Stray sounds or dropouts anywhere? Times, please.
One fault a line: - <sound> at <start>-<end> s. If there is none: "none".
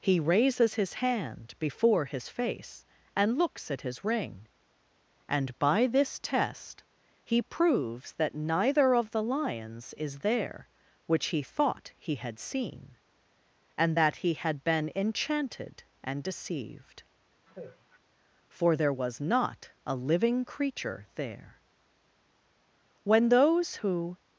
- sigh at 17.5-18.0 s